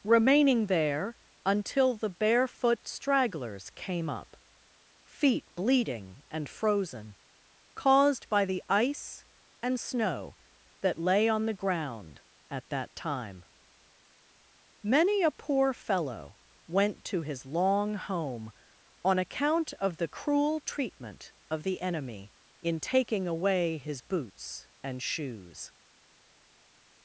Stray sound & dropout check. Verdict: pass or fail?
pass